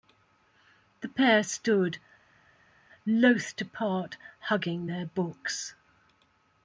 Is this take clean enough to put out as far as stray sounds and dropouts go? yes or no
yes